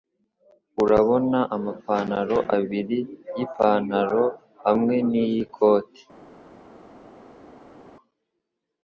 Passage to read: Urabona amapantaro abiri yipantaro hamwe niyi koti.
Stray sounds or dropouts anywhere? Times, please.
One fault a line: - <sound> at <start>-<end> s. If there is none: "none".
none